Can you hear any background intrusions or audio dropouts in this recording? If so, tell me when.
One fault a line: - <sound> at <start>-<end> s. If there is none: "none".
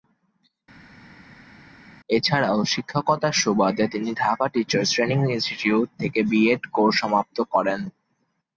none